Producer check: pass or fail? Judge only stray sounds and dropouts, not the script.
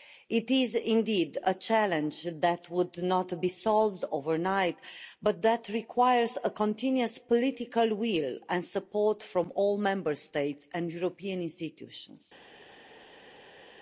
pass